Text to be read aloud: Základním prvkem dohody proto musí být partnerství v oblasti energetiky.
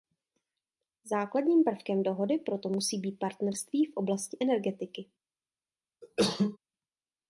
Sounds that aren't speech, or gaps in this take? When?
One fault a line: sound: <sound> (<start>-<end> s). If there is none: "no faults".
sound: cough (6.0-6.6 s)